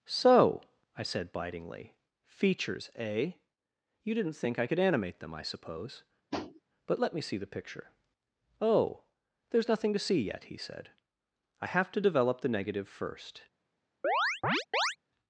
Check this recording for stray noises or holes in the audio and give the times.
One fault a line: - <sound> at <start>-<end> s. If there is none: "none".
- tap at 6.3-6.6 s
- chirp at 14.0-15.0 s